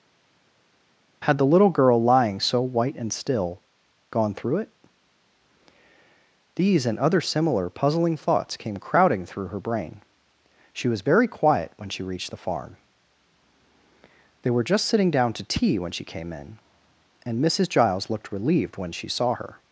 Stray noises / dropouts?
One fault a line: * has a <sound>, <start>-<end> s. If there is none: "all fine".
all fine